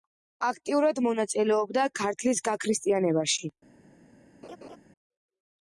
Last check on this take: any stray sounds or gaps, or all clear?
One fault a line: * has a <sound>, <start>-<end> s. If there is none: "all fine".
* has a laugh, 4.4-4.8 s